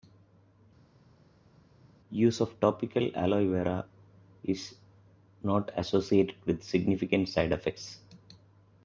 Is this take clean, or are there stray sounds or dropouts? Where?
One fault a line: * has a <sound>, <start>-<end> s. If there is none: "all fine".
all fine